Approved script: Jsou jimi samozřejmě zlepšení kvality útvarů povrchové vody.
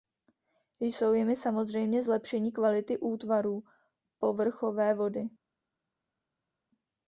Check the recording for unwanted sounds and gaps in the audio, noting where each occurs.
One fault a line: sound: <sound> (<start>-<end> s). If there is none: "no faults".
no faults